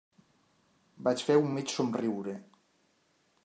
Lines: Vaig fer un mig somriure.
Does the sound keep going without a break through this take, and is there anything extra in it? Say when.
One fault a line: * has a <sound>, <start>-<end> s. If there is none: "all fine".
all fine